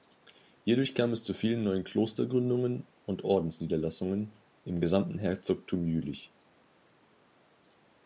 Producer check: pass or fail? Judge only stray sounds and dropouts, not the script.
pass